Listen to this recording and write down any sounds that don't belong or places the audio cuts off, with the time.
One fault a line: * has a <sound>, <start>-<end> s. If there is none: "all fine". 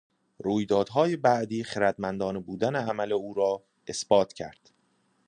all fine